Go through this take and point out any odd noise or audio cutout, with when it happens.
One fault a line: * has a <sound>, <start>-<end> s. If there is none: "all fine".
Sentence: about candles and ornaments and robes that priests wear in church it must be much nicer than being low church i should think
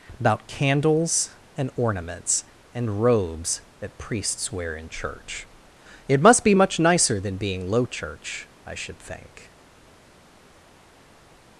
all fine